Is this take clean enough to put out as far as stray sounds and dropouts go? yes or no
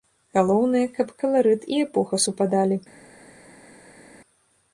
yes